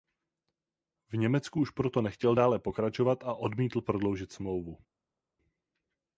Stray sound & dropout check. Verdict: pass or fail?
pass